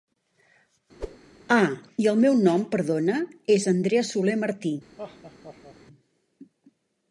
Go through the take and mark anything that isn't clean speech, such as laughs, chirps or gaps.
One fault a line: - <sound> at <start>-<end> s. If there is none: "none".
- whoosh at 1.0-1.2 s
- laugh at 5.0-5.8 s